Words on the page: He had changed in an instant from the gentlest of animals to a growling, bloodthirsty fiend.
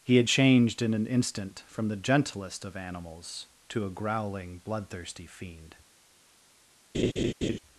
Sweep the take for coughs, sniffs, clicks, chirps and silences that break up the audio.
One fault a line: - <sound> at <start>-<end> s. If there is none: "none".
- laugh at 6.9-7.6 s